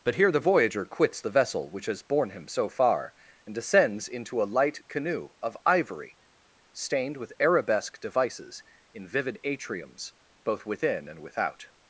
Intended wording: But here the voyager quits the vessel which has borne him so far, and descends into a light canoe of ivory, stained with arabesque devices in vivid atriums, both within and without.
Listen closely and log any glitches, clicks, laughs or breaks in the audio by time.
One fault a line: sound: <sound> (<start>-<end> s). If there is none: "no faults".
no faults